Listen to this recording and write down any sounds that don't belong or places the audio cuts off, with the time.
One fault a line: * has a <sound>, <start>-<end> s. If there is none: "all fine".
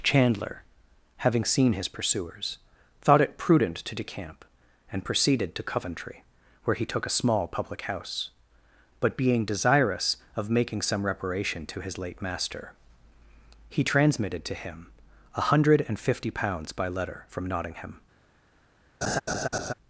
* has a laugh, 19.0-19.7 s